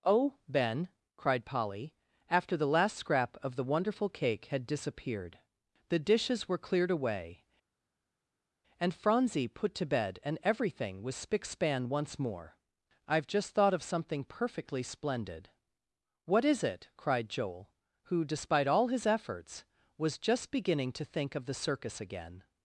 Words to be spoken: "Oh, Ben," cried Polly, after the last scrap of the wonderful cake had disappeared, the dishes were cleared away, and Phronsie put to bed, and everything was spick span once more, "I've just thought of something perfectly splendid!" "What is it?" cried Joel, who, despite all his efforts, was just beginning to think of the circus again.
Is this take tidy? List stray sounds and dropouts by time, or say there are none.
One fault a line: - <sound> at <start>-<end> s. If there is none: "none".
none